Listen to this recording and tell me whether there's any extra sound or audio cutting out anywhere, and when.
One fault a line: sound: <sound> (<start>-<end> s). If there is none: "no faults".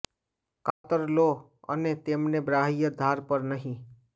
sound: dropout (0.7-0.8 s)